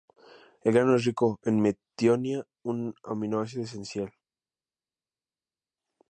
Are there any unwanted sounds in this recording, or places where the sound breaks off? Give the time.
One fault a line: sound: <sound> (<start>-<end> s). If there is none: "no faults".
no faults